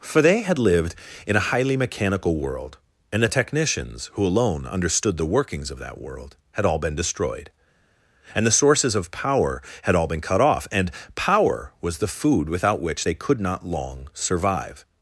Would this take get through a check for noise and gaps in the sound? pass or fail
pass